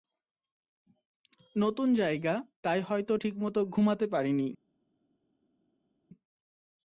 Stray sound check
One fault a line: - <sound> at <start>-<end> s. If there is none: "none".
none